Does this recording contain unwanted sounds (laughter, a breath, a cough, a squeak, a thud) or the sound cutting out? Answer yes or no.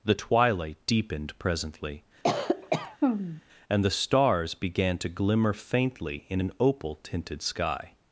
yes